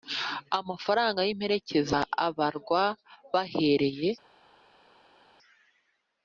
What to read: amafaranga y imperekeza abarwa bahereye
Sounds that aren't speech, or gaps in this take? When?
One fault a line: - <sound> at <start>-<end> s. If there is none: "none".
none